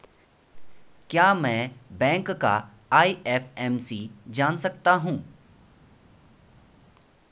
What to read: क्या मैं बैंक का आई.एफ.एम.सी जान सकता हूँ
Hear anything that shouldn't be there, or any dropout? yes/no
no